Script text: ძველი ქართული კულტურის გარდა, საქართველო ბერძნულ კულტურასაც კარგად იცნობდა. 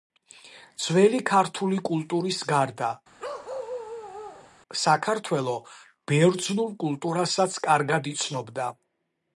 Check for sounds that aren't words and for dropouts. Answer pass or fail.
fail